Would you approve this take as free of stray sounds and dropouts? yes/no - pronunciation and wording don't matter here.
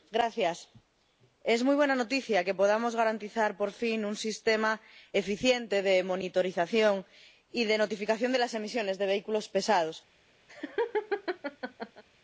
no